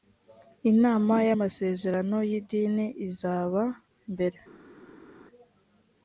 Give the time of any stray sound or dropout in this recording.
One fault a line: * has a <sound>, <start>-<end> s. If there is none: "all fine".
all fine